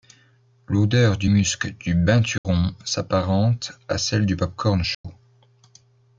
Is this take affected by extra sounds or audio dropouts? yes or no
yes